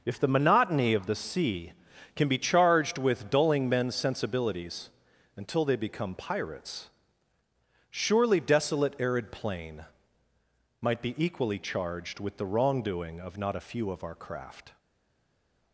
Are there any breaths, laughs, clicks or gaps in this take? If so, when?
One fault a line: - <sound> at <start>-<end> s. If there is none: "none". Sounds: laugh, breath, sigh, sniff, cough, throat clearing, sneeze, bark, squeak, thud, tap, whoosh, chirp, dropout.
none